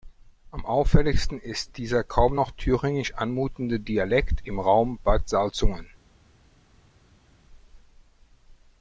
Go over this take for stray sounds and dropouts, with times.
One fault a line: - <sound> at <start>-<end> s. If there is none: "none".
none